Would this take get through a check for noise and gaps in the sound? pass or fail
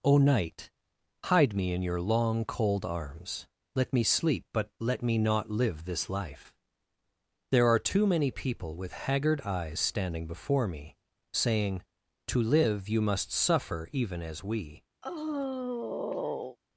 fail